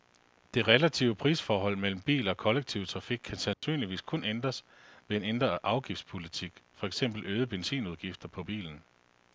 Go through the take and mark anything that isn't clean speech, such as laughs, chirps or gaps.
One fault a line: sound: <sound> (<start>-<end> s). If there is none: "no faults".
sound: dropout (3.5-3.6 s)